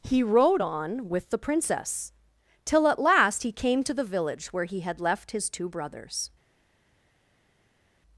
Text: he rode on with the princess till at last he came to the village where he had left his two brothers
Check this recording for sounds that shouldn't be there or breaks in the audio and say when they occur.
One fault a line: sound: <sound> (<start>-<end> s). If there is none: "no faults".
no faults